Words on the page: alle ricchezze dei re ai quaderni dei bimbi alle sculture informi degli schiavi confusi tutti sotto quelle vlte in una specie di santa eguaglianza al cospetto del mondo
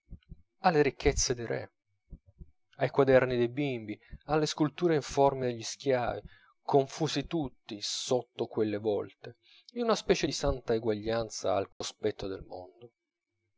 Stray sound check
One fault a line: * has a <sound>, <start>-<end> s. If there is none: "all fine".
* has a dropout, 11.7-11.8 s